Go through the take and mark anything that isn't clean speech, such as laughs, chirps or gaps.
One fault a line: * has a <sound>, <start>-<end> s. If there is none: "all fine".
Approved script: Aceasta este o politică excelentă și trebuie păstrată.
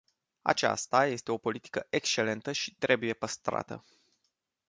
all fine